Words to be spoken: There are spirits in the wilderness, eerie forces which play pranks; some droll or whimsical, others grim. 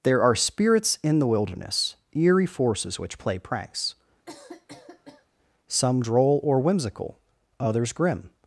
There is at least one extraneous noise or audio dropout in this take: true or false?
true